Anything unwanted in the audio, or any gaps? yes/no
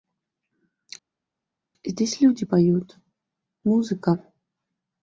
no